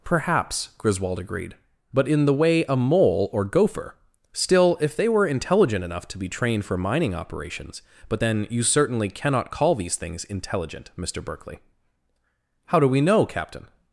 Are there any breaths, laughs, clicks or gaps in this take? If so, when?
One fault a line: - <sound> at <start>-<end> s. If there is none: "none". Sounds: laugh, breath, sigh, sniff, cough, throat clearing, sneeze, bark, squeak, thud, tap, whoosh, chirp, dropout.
none